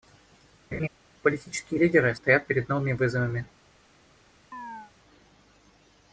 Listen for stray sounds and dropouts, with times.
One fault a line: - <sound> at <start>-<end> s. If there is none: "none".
- laugh at 0.7-0.9 s
- chirp at 4.5-4.9 s